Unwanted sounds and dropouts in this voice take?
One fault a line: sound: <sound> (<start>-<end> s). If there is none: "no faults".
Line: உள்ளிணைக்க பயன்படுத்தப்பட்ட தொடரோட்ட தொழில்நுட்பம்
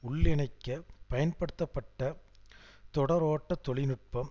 no faults